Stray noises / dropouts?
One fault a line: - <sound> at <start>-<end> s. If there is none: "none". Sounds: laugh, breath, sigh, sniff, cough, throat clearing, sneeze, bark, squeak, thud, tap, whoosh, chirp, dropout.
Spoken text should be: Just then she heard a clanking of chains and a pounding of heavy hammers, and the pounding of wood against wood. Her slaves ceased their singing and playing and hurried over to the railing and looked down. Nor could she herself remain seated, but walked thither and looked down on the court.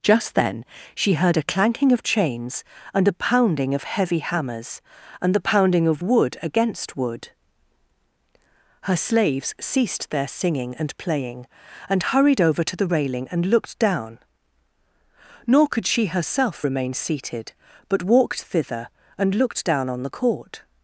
none